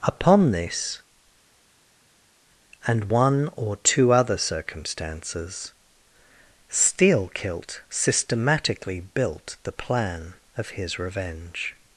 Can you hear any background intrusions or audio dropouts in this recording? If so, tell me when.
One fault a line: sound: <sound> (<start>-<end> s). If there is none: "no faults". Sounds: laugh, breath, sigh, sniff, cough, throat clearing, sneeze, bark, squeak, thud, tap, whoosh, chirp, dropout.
no faults